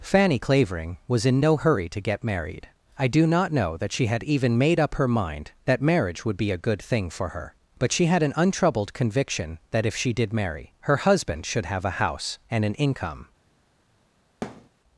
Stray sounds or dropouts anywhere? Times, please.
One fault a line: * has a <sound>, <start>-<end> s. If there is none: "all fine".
* has a thud, 14.4-14.7 s